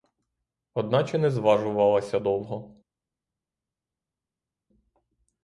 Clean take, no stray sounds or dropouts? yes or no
yes